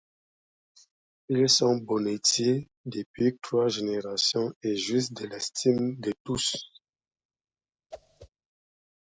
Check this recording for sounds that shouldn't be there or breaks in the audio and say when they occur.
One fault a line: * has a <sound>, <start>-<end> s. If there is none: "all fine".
* has a whoosh, 7.9-8.3 s